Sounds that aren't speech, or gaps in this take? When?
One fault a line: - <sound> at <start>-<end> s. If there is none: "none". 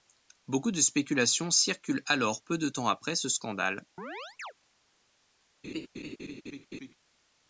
- chirp at 4.0-4.5 s
- laugh at 5.6-6.9 s